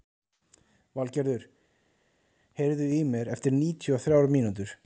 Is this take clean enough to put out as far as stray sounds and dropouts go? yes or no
yes